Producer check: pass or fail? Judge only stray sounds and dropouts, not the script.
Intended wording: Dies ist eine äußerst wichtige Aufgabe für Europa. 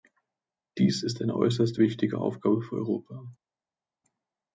pass